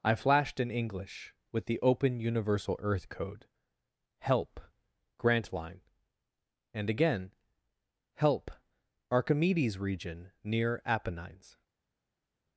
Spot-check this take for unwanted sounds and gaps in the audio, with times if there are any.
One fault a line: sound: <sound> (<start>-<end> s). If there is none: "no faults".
no faults